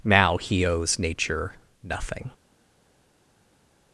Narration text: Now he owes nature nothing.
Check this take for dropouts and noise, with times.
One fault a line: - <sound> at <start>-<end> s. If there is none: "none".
none